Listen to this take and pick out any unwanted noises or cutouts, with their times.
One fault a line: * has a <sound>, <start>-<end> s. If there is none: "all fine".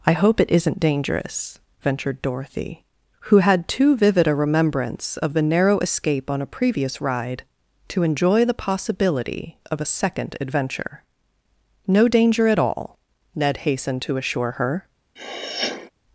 * has a sniff, 15.2-15.9 s